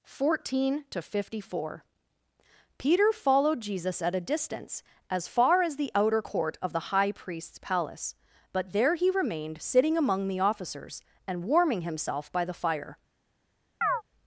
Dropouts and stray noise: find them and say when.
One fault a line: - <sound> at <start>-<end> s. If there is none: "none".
- chirp at 13.8-14.0 s